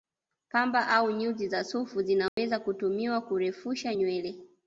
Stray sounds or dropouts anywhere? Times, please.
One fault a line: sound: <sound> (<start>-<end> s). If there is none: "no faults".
sound: dropout (2.3-2.4 s)